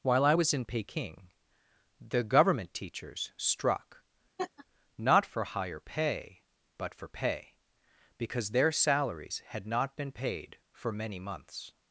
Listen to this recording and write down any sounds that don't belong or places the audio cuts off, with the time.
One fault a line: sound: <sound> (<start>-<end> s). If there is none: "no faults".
sound: laugh (4.4-4.7 s)